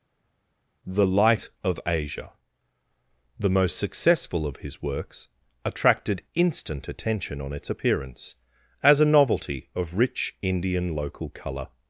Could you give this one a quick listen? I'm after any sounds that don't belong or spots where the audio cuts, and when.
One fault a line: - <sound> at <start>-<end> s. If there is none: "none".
none